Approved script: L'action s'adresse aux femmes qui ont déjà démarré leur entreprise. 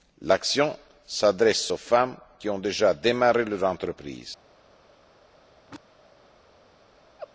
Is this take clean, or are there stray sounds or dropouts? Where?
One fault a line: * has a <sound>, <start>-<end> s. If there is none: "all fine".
* has a throat clearing, 5.5-5.8 s
* has a laugh, 7.2-7.3 s